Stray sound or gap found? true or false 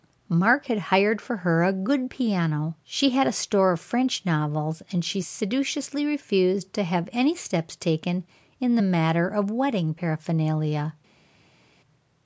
false